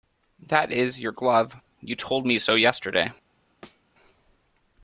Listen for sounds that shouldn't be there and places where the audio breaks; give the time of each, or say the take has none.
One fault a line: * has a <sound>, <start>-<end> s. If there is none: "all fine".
* has a thud, 3.6-3.8 s